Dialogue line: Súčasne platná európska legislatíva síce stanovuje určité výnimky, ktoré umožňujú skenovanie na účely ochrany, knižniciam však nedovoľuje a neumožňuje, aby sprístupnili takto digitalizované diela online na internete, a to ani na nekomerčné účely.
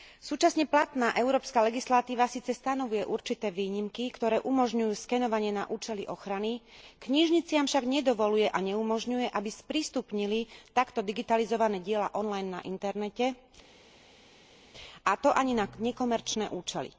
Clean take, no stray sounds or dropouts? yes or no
yes